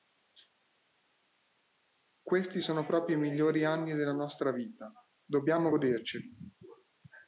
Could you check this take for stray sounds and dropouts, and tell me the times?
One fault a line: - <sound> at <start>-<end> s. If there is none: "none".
none